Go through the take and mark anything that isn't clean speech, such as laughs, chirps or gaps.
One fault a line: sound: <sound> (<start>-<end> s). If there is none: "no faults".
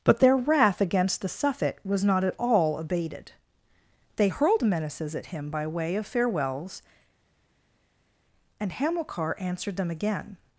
no faults